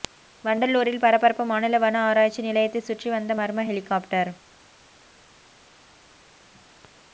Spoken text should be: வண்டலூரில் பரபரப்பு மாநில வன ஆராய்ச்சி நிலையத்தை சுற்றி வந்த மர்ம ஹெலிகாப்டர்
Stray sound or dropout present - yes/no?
no